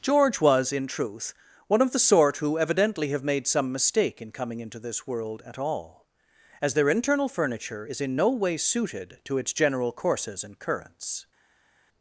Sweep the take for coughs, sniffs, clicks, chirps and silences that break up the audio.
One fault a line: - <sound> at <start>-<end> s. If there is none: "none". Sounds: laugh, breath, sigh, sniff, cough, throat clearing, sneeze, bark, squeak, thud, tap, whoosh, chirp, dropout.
none